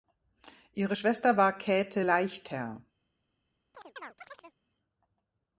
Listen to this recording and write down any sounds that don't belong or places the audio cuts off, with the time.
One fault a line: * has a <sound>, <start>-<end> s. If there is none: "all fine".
* has a chirp, 3.7-4.6 s